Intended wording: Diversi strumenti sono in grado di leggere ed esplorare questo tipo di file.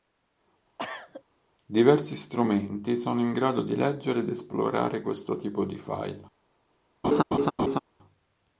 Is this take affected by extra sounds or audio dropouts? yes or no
yes